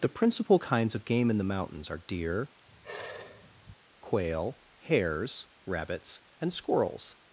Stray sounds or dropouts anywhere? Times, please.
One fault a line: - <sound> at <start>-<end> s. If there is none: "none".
- sigh at 2.7-3.8 s